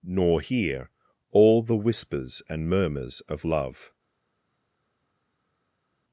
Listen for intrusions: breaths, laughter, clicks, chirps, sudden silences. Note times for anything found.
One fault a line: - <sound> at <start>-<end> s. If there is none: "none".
none